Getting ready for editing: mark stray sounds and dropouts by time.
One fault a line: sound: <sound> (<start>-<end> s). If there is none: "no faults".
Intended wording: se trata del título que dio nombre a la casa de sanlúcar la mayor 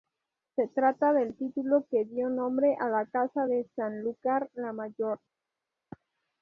no faults